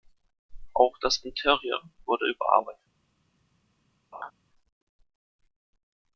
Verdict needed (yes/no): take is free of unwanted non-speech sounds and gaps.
no